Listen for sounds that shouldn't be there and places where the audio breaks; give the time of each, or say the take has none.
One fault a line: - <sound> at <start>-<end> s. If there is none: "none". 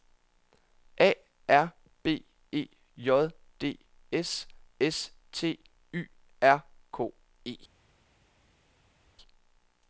none